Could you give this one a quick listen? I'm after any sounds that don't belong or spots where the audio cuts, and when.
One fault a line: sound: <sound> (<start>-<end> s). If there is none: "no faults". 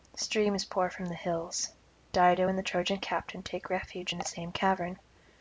no faults